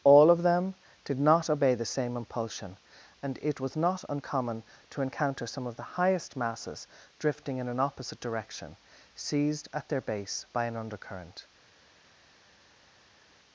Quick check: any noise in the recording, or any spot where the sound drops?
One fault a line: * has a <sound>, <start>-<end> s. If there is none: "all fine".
all fine